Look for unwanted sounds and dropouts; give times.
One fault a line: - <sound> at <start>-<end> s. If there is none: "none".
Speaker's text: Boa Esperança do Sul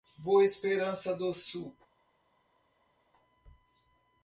none